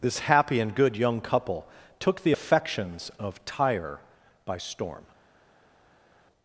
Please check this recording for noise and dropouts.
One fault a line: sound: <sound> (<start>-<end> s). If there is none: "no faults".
no faults